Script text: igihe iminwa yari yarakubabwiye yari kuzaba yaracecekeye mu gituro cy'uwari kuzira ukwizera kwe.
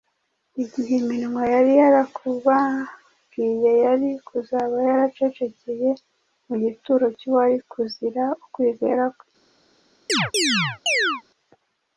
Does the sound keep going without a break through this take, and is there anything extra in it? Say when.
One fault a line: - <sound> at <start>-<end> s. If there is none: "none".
- chirp at 10.1-11.2 s